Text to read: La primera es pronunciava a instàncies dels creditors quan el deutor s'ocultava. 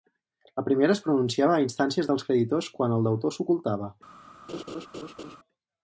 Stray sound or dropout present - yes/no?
yes